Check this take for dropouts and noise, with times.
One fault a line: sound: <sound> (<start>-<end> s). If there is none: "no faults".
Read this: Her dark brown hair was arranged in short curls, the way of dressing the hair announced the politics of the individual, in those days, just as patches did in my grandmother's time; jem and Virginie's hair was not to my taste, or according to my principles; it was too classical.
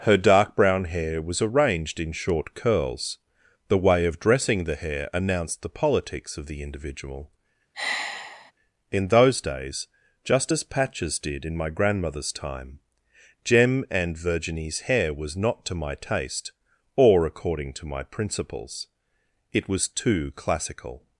sound: sigh (7.7-8.5 s)